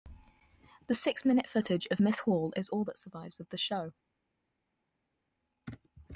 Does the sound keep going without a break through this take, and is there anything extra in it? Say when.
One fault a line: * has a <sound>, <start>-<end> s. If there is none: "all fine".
all fine